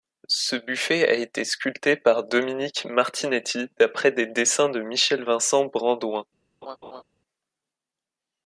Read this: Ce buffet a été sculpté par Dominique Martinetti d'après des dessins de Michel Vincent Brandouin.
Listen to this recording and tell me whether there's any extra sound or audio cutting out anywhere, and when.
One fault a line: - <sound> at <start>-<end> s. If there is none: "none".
- laugh at 6.6-7.0 s